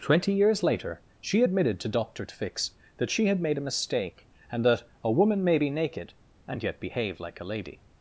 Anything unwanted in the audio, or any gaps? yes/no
no